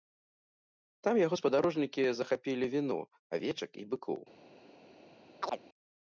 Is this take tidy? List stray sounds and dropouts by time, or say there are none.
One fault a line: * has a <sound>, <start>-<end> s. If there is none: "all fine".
* has a chirp, 5.4-5.6 s